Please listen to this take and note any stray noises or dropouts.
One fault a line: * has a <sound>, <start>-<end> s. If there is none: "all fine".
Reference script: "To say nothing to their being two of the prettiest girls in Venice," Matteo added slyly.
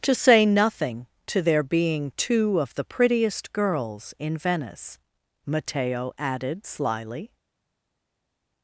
all fine